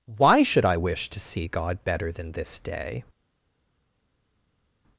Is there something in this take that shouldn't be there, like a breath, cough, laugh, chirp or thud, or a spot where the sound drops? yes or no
no